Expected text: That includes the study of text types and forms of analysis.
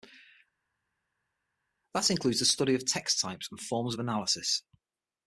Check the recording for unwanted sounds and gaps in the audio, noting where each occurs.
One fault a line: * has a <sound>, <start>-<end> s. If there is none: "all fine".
all fine